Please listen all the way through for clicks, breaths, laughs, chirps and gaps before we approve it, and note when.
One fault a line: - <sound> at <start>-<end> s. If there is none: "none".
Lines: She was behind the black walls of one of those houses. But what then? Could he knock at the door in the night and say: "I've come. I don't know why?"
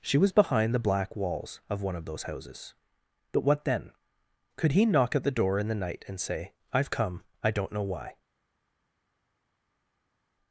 none